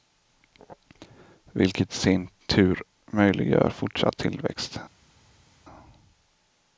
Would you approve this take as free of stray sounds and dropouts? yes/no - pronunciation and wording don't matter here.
yes